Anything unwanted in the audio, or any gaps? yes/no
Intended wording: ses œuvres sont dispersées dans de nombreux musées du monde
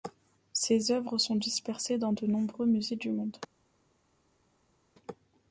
no